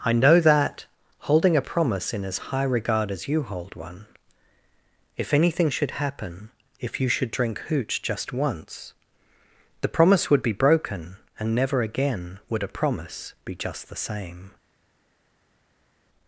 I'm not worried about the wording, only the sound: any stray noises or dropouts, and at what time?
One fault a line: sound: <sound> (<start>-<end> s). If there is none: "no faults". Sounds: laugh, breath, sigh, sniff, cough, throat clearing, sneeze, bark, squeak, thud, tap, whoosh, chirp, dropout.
no faults